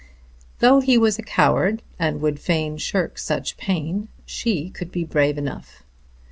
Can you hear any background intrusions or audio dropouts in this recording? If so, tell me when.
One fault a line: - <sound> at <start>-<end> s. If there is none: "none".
none